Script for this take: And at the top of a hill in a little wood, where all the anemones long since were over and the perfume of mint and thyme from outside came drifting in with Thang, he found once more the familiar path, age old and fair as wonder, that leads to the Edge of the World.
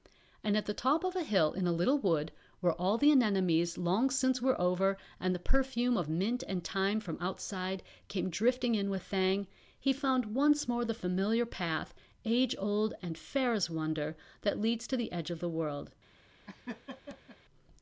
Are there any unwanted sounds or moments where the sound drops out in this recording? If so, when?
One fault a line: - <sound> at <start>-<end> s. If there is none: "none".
- laugh at 16.5-17.4 s